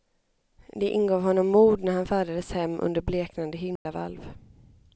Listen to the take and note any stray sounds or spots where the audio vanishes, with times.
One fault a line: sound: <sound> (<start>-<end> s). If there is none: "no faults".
sound: dropout (3.8-3.9 s)